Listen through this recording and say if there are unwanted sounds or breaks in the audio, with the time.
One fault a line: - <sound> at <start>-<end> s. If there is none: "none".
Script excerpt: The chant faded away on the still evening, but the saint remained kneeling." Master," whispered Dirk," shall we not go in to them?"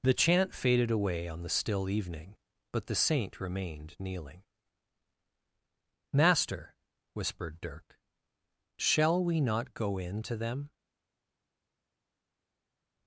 none